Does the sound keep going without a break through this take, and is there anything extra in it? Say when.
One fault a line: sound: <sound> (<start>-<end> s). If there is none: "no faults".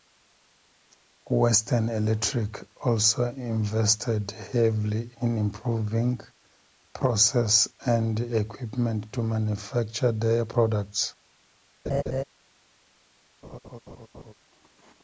sound: laugh (11.9-12.2 s)
sound: laugh (13.4-14.3 s)